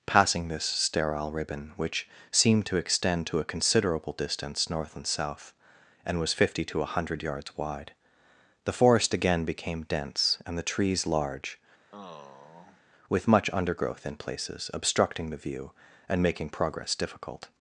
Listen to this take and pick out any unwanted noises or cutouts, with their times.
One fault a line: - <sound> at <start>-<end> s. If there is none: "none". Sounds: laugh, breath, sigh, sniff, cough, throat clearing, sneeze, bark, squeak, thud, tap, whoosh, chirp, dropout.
- sigh at 11.9-12.8 s